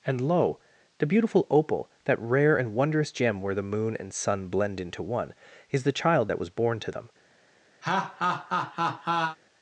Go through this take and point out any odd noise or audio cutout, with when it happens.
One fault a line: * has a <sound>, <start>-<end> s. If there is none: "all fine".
* has a laugh, 7.8-9.4 s